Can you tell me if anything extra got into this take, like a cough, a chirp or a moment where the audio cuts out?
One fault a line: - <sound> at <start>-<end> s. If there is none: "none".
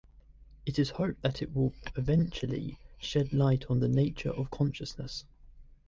none